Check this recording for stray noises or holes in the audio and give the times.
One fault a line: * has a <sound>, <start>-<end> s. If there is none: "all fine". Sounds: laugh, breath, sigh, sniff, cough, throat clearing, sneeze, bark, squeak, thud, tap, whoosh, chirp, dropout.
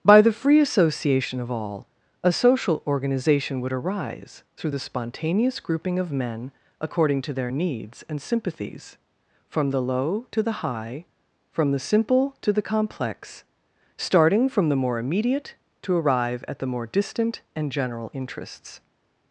all fine